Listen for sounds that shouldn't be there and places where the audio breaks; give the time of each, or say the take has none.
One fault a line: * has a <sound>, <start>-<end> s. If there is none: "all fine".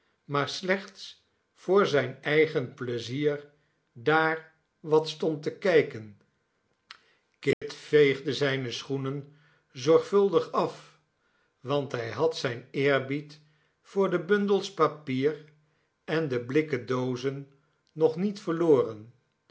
* has a dropout, 7.5-7.6 s